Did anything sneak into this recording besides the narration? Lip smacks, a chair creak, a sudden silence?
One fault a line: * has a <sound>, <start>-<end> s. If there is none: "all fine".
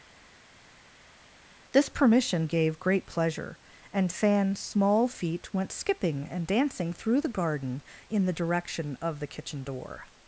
all fine